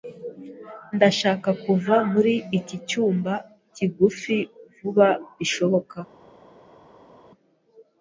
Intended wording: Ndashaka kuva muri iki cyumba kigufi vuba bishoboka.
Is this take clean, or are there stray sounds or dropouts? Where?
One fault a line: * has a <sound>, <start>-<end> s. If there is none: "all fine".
all fine